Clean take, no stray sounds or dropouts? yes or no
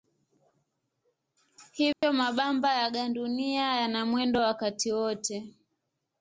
no